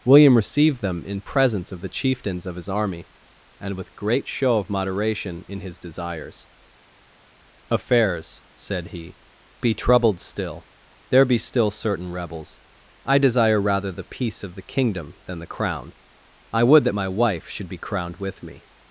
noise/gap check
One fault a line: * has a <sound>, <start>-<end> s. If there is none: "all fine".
all fine